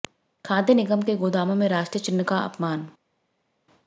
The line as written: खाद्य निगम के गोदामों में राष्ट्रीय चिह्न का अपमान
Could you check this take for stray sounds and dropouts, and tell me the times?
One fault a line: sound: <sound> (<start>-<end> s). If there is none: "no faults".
no faults